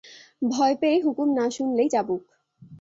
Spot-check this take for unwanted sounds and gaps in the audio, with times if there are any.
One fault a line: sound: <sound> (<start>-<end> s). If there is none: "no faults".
no faults